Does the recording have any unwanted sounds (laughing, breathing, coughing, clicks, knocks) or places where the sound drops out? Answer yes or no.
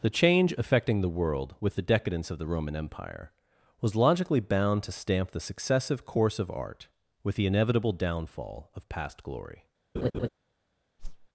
yes